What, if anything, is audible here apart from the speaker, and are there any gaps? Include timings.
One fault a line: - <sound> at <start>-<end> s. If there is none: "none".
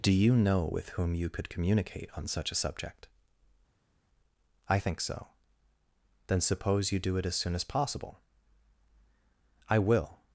none